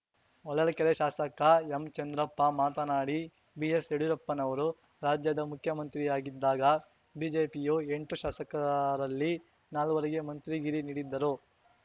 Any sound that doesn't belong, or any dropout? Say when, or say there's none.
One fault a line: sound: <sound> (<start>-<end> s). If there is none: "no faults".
no faults